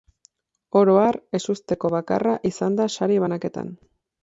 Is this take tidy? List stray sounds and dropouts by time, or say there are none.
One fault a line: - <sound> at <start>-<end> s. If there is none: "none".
none